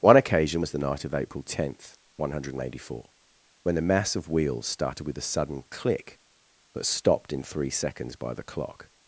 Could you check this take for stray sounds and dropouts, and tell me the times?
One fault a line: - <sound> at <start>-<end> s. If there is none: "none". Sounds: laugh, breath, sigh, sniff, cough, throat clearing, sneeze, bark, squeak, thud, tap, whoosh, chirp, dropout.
none